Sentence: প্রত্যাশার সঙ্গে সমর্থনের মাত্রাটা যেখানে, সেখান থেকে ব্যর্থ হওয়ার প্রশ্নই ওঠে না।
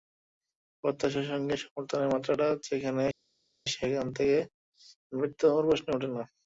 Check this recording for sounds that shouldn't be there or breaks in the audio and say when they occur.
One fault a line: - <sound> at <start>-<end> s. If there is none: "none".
none